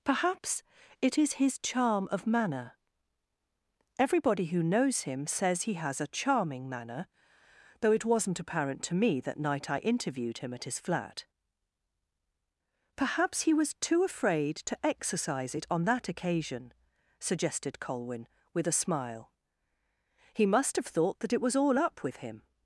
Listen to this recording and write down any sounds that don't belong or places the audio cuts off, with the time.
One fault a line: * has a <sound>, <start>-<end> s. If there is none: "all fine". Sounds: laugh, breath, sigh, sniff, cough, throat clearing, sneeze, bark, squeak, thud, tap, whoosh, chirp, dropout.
all fine